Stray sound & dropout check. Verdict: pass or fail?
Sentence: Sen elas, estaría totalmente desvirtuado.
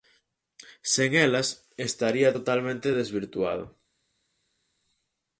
pass